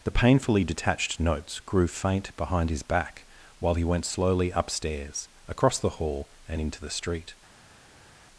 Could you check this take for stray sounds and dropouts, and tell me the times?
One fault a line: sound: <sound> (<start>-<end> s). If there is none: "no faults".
no faults